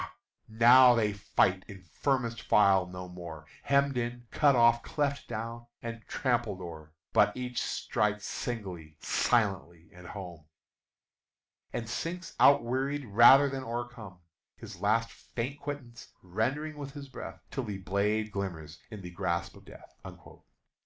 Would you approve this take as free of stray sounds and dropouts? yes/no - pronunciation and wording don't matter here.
yes